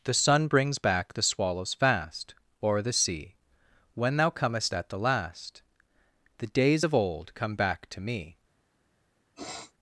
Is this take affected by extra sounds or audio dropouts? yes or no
yes